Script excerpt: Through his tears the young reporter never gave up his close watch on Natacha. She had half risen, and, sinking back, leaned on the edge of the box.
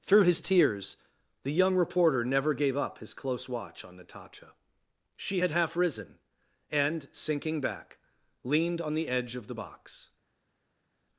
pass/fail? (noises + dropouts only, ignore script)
pass